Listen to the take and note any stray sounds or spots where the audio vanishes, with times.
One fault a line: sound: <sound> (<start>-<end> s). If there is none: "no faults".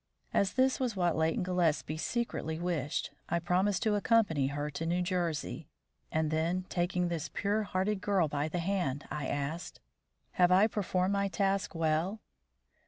no faults